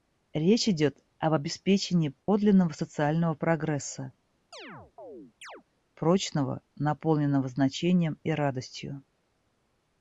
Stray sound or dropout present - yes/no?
yes